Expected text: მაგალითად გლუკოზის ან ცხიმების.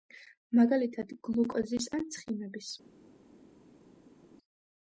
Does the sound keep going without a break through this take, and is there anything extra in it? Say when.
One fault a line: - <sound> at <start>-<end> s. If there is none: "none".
none